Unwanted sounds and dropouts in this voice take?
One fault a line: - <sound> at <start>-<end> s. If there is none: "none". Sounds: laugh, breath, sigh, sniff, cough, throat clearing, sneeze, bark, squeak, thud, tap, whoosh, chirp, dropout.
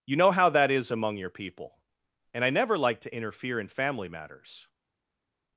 none